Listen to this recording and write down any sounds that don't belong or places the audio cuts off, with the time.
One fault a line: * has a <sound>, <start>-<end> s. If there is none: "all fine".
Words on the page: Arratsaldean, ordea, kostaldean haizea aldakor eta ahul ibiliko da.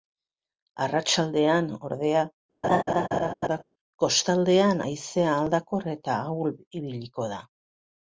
* has a laugh, 2.6-3.6 s